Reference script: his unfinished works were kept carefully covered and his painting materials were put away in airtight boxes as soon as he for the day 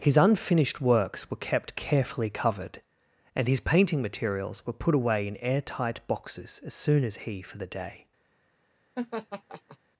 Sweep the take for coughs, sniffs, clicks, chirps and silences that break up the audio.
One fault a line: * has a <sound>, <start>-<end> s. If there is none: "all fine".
* has a laugh, 9.0-9.8 s